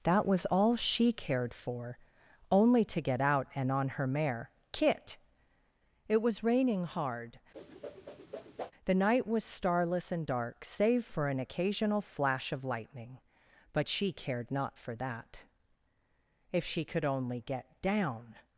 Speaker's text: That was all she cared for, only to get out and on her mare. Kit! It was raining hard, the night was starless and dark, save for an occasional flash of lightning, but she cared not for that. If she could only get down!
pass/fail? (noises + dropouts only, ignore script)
fail